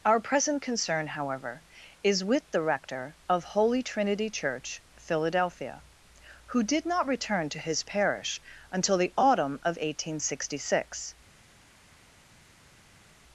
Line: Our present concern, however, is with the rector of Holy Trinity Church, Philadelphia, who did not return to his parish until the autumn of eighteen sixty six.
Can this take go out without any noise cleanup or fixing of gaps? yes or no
yes